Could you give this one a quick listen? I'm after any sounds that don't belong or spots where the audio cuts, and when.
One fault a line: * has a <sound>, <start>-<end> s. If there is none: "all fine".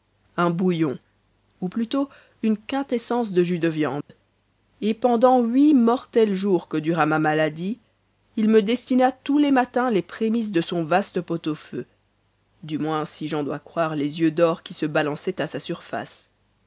* has a dropout, 4.0-4.1 s